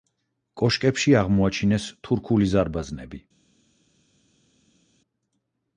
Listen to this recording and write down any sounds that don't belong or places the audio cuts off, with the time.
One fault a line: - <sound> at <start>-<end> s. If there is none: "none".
none